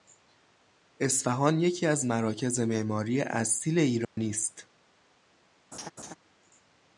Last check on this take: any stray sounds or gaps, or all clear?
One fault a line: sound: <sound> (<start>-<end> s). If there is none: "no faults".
sound: dropout (4.0-4.2 s)
sound: laugh (5.7-6.2 s)